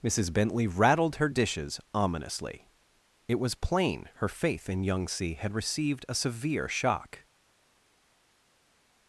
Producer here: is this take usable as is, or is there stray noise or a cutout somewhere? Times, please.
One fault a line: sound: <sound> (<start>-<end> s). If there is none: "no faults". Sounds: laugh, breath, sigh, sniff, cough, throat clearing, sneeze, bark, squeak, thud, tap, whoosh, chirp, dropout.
no faults